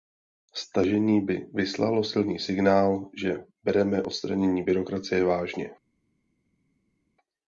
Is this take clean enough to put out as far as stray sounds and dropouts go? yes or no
yes